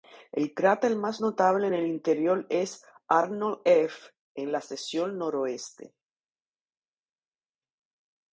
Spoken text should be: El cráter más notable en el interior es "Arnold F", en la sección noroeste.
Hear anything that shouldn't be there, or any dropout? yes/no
no